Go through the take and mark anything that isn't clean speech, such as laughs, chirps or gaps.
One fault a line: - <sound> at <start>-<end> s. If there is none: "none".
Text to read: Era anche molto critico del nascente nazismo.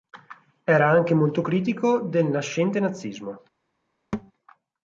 - thud at 4.1-4.3 s